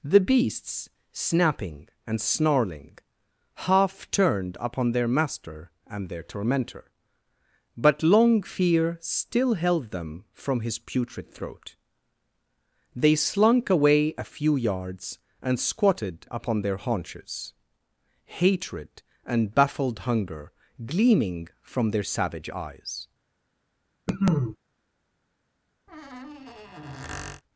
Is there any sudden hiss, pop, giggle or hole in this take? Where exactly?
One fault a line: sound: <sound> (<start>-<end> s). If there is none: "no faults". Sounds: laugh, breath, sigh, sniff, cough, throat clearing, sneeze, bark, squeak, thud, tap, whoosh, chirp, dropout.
sound: cough (24.1-24.6 s)
sound: squeak (25.9-27.4 s)